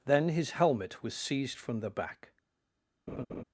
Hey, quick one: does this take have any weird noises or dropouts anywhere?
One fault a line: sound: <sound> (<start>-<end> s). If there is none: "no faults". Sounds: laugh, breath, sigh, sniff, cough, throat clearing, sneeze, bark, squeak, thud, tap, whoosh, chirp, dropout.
sound: laugh (3.1-3.4 s)